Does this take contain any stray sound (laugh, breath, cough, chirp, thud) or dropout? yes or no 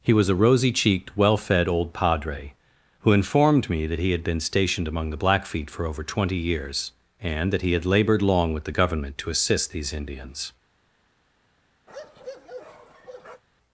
yes